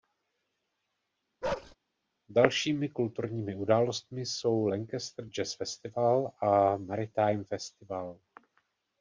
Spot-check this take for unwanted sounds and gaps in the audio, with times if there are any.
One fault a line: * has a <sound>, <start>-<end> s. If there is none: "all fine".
* has a bark, 1.4-1.8 s